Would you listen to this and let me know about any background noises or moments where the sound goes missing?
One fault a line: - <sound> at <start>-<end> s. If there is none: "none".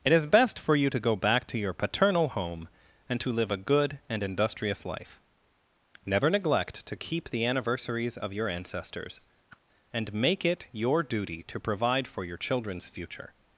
- whoosh at 9.5-9.6 s